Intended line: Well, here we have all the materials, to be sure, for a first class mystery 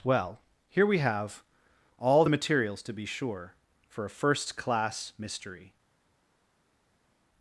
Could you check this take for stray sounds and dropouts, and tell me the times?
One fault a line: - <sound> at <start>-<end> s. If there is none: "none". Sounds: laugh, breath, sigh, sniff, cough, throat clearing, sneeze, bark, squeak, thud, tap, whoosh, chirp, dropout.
none